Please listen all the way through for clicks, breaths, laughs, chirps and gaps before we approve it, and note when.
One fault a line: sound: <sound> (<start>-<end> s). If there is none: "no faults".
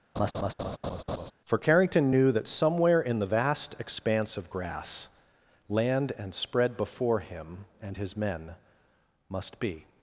sound: laugh (0.2-1.3 s)